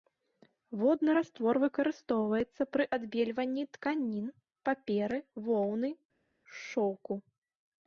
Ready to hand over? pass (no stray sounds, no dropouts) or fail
pass